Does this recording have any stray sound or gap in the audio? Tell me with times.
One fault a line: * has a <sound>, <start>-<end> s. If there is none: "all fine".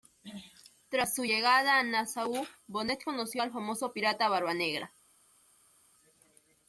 all fine